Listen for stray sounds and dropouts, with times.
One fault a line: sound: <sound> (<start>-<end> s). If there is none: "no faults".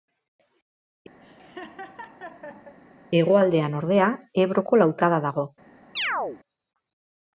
sound: laugh (1.2-2.7 s)
sound: chirp (6.0-6.4 s)